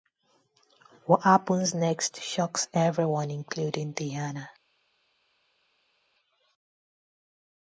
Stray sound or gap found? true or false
false